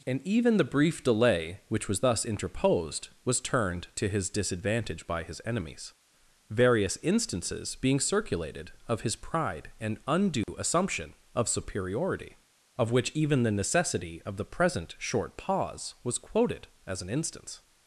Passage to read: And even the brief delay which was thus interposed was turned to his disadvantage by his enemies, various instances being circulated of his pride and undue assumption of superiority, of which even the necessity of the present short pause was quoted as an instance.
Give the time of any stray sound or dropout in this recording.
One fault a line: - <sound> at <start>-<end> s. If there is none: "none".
- dropout at 10.4-10.5 s